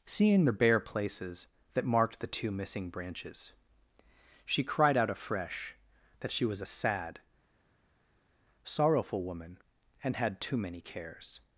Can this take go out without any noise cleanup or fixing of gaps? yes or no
yes